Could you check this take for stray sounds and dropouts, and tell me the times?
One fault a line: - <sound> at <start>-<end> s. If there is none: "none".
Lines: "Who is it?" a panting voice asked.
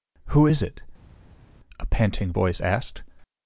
none